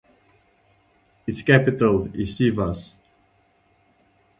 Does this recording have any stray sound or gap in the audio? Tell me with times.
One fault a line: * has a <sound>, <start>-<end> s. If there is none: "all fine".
all fine